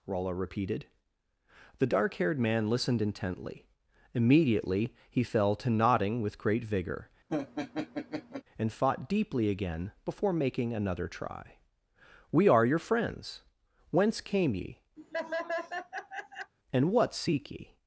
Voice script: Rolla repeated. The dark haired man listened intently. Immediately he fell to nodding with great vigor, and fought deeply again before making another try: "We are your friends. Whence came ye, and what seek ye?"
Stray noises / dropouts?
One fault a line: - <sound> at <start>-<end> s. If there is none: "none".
- laugh at 7.3-8.4 s
- laugh at 15.0-16.5 s